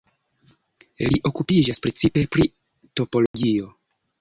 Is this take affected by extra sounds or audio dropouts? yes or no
yes